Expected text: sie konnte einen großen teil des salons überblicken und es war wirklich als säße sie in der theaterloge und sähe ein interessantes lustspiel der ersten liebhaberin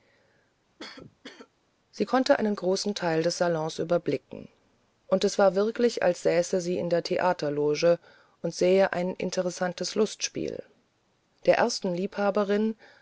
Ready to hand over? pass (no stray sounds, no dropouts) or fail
fail